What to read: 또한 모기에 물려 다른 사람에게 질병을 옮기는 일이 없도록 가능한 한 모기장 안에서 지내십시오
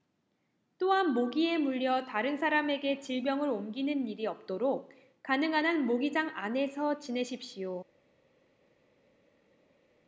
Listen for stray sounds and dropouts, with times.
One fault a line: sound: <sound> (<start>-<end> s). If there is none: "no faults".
no faults